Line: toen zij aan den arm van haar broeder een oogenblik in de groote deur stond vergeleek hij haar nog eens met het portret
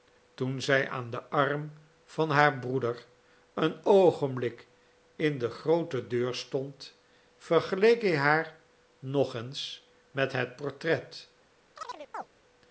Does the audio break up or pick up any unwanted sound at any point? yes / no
yes